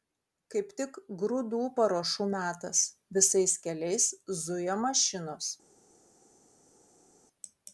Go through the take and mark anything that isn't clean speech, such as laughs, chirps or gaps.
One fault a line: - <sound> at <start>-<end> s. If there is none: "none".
none